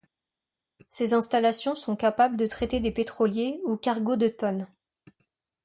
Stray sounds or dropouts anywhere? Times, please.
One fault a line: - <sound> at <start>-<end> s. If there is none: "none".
none